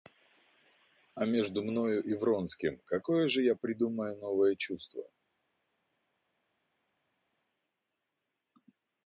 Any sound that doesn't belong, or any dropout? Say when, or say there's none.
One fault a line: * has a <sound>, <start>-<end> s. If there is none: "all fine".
all fine